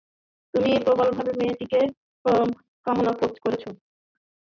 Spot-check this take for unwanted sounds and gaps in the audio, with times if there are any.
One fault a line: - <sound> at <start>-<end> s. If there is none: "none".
none